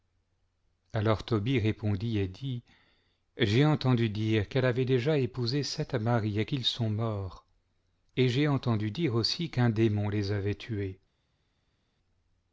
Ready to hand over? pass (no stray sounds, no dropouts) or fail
pass